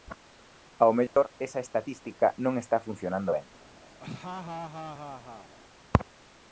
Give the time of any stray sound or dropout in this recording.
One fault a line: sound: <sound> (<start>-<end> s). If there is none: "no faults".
sound: dropout (1.1-1.2 s)
sound: laugh (4.0-5.5 s)